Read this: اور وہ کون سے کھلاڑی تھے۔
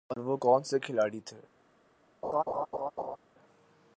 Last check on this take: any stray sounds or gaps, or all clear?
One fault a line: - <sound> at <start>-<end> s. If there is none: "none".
- laugh at 2.2-3.2 s